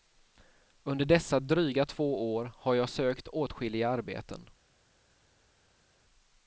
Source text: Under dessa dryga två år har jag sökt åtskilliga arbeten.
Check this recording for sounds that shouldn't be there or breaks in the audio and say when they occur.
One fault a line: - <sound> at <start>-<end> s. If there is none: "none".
none